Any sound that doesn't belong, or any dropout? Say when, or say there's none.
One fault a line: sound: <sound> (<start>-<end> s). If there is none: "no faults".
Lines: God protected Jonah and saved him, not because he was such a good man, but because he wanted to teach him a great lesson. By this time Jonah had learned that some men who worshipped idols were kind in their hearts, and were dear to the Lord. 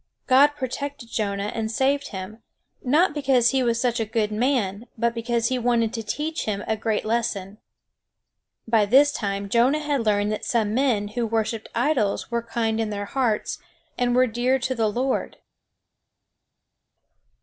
no faults